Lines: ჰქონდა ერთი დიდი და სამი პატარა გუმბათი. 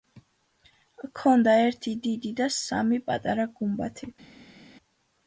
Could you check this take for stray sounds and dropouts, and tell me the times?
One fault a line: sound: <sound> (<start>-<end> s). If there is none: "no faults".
no faults